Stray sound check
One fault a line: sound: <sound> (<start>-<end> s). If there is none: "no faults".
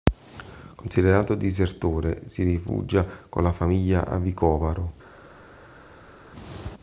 no faults